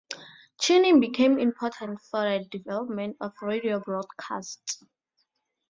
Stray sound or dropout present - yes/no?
no